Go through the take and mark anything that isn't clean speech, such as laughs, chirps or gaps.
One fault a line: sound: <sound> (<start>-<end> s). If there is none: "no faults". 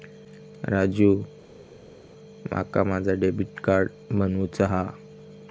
no faults